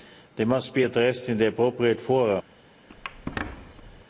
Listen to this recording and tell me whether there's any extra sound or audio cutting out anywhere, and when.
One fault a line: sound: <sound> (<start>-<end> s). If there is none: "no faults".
sound: squeak (2.9-4.0 s)